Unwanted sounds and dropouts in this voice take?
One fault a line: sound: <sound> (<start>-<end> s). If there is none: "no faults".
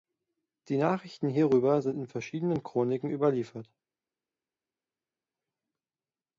no faults